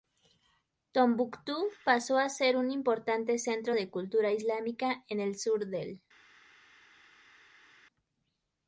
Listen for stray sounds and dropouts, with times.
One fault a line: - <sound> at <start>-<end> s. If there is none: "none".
none